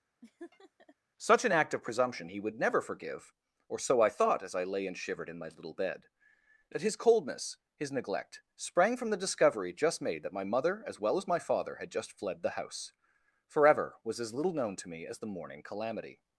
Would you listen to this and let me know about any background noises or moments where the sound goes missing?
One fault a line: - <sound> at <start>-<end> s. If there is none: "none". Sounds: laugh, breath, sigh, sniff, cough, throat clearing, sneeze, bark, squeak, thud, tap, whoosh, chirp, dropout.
- laugh at 0.2-1.0 s